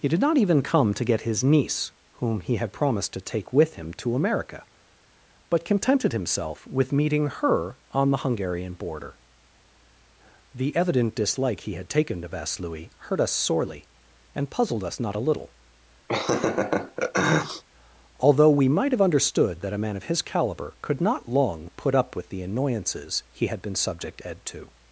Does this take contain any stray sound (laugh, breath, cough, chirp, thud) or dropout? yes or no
yes